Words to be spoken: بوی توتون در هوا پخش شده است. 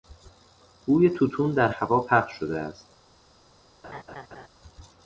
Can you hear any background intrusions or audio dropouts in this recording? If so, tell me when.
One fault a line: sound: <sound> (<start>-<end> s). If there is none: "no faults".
sound: laugh (3.8-4.5 s)